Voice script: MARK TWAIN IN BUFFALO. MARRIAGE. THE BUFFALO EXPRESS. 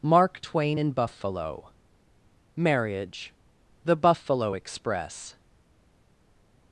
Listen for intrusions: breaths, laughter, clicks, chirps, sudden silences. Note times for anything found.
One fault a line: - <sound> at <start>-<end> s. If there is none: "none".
none